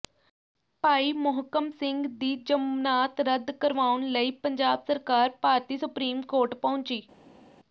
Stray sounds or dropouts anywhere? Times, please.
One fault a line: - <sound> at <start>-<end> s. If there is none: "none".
none